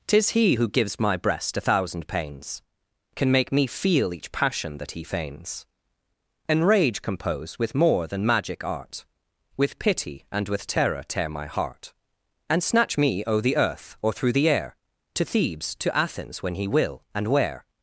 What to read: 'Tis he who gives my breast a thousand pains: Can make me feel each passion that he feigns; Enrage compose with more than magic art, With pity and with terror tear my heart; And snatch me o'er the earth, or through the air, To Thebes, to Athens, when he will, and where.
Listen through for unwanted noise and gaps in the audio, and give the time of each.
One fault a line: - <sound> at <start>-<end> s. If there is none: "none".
none